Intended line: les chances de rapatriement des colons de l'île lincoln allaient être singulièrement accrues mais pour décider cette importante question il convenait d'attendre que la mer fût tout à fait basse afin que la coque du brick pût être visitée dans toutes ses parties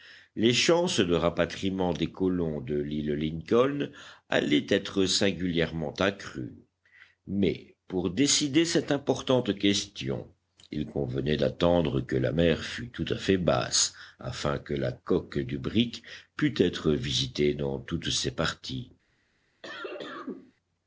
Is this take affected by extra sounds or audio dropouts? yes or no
yes